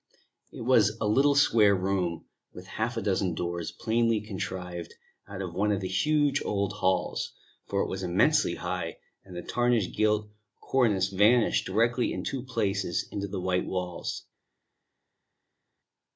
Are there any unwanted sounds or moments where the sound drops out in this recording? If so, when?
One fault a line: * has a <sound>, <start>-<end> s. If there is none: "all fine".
all fine